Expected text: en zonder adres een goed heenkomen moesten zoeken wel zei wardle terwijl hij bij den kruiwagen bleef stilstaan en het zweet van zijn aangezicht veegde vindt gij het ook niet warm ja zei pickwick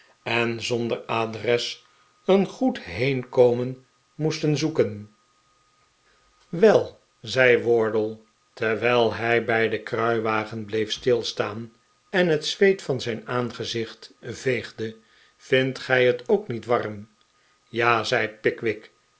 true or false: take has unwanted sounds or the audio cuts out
false